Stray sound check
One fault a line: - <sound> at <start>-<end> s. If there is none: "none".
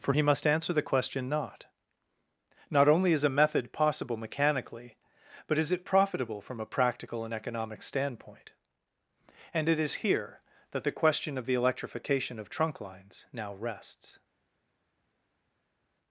none